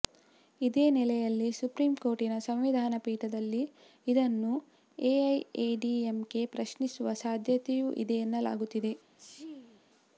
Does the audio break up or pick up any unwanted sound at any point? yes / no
yes